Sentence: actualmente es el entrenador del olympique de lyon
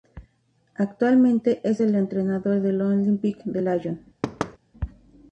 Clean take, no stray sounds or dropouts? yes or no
no